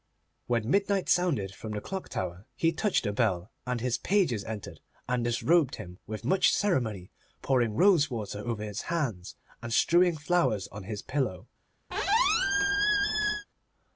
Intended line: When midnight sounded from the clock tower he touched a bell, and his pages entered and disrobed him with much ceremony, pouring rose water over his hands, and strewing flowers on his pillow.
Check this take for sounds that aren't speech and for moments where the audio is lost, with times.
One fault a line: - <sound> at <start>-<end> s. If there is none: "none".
- squeak at 11.9-13.5 s